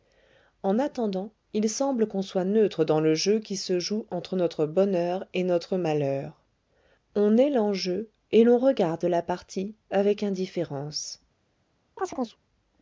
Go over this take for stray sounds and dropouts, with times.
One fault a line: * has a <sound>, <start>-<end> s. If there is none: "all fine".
* has a chirp, 12.0-12.4 s